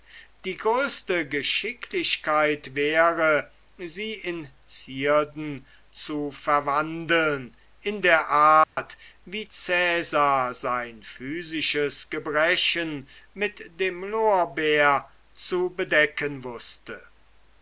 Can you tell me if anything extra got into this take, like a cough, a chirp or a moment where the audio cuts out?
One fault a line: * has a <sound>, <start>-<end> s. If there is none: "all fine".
* has a dropout, 8.6-8.8 s